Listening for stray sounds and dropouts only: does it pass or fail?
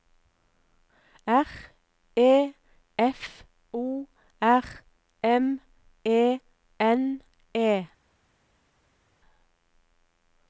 pass